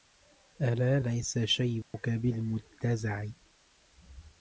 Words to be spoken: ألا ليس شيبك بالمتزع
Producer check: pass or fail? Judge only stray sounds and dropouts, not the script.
fail